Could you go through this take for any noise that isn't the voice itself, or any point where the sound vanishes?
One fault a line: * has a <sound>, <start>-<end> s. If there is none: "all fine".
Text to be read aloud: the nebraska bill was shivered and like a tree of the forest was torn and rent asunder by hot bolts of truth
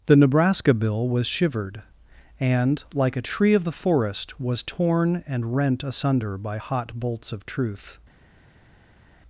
all fine